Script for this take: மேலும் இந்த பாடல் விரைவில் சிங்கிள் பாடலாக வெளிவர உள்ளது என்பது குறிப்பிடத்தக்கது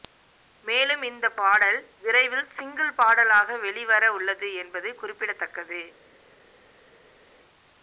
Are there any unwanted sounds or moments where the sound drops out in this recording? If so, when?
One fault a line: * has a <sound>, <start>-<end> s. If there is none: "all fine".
all fine